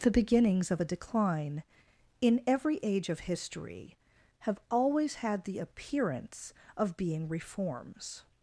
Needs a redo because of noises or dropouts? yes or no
no